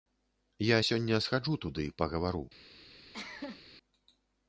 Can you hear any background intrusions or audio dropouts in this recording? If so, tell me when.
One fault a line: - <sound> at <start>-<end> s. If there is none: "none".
- cough at 3.1-3.6 s